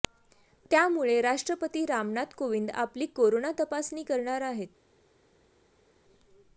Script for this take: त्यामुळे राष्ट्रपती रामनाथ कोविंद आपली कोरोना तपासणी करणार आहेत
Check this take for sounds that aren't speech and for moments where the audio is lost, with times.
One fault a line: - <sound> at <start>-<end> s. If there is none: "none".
none